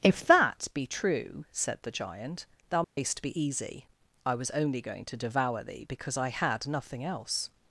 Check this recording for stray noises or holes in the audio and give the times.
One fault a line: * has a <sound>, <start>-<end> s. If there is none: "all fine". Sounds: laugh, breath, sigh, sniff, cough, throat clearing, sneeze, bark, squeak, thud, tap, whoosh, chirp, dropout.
* has a dropout, 2.8-3.0 s